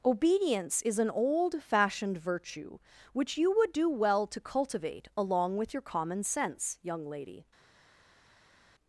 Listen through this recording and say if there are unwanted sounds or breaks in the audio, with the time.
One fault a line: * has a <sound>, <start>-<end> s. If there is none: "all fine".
all fine